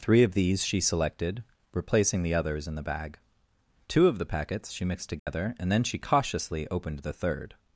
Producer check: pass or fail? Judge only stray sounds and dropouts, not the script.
fail